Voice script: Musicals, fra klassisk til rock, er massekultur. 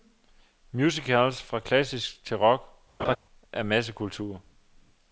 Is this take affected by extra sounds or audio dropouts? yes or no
yes